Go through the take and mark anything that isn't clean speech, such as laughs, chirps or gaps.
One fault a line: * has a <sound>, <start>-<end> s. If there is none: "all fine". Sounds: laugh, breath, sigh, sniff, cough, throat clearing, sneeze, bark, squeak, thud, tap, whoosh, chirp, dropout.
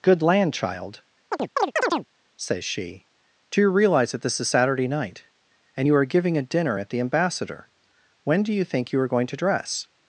* has a chirp, 1.3-2.1 s